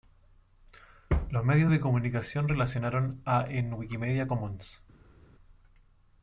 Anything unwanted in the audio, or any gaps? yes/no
no